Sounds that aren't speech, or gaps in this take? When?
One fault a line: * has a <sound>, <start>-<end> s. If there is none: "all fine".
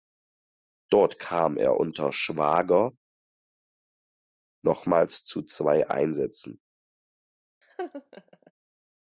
* has a laugh, 7.6-8.5 s